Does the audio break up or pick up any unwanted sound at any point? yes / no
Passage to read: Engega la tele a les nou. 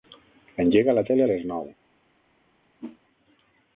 yes